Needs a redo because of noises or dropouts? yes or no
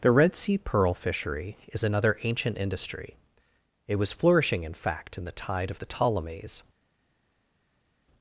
no